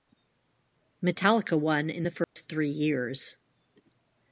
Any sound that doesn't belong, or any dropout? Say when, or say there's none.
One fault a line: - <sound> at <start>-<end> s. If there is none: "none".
- dropout at 2.2-2.4 s